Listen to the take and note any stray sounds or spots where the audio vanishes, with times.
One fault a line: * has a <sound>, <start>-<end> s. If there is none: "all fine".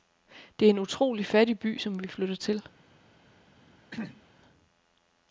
* has a throat clearing, 3.9-4.2 s